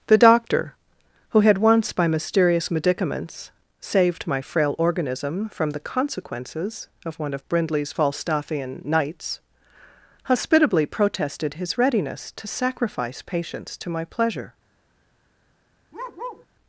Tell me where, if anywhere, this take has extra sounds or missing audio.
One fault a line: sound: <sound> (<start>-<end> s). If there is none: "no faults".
sound: bark (15.9-16.5 s)